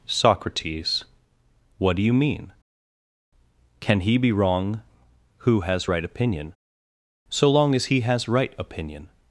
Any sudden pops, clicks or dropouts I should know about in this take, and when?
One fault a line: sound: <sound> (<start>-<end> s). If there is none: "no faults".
no faults